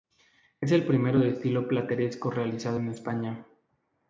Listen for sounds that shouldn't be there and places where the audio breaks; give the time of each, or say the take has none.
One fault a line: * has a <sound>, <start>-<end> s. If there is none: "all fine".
all fine